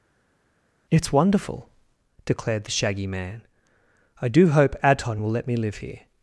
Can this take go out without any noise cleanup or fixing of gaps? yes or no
yes